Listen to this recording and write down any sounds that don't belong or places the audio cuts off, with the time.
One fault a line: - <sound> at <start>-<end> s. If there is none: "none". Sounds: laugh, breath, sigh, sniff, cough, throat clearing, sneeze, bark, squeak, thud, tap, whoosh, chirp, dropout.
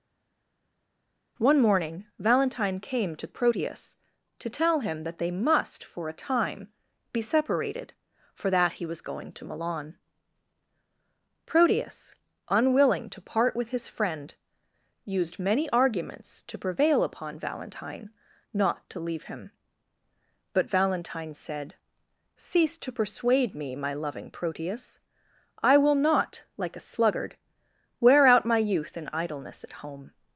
none